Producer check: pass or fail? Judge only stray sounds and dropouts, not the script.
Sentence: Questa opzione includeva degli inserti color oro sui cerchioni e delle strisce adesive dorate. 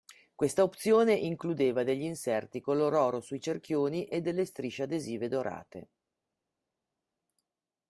pass